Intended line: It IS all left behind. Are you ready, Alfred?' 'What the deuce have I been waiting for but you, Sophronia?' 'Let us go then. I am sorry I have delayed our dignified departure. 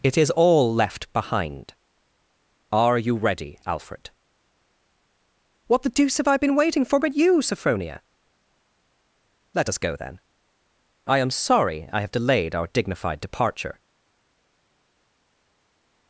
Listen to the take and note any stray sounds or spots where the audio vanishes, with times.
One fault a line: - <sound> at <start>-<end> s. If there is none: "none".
none